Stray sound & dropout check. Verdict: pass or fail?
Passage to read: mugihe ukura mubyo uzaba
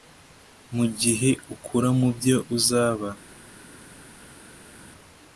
pass